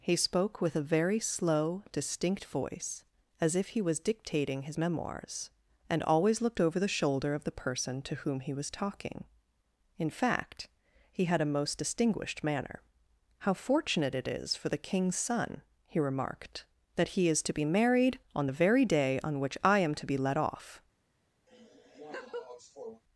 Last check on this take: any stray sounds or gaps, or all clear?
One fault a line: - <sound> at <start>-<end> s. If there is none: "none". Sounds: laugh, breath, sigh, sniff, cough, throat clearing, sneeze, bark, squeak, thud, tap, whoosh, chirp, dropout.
- laugh at 21.5-23.0 s